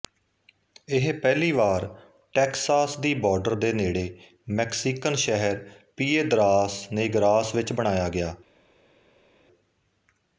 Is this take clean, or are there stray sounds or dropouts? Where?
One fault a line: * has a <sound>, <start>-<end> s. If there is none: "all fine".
all fine